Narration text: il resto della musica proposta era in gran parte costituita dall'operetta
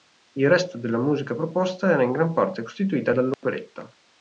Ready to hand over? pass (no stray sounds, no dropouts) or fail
fail